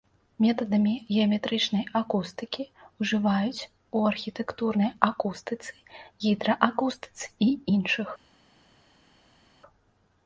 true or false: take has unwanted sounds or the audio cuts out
false